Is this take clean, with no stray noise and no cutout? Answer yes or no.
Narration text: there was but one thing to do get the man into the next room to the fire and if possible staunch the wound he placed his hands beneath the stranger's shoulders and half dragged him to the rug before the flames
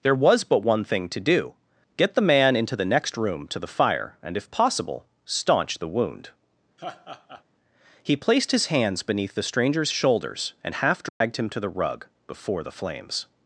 no